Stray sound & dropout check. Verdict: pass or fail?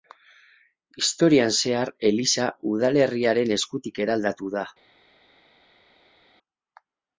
pass